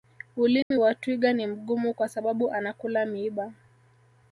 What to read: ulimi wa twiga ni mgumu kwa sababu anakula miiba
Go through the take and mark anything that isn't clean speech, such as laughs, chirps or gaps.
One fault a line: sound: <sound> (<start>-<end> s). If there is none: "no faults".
sound: dropout (0.6-0.7 s)